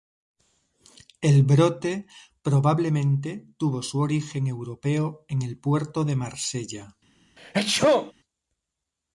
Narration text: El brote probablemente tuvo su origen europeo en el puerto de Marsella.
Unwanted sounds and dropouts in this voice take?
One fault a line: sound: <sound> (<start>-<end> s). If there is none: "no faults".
sound: sneeze (7.4-8.1 s)